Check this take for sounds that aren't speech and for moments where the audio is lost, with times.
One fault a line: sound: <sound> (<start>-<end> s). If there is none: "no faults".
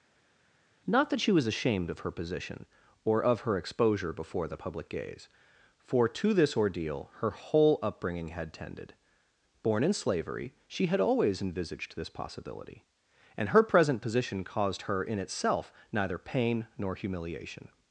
no faults